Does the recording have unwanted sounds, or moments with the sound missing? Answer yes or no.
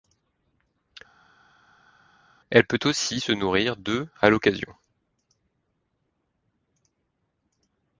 no